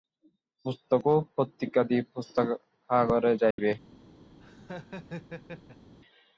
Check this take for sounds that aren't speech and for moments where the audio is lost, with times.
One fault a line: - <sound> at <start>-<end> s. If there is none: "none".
- dropout at 3.5-3.6 s
- laugh at 4.4-5.9 s